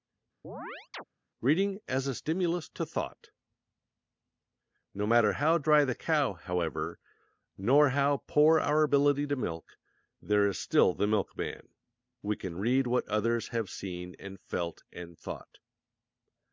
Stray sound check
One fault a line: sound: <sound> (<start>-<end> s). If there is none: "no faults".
sound: chirp (0.4-1.0 s)